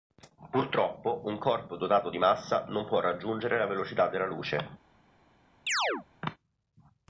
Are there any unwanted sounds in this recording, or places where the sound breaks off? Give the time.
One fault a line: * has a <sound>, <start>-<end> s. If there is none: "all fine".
* has a chirp, 5.7-6.1 s